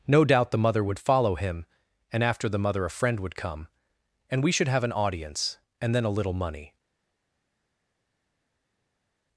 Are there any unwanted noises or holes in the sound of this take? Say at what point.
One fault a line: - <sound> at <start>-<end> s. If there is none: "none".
none